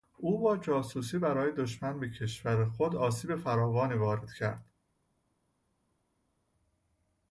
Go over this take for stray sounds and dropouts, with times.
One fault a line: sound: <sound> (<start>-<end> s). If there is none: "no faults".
no faults